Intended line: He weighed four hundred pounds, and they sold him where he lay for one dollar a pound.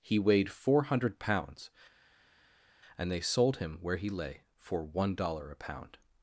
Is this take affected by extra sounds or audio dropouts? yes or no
no